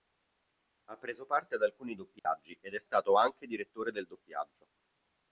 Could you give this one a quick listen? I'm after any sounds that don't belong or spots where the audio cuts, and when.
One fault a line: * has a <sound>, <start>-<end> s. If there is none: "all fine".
* has a dropout, 2.2-2.2 s